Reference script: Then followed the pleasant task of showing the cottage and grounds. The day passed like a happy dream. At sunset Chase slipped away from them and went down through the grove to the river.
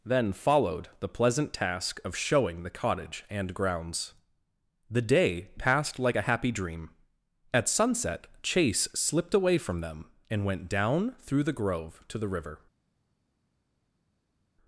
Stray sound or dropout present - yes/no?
no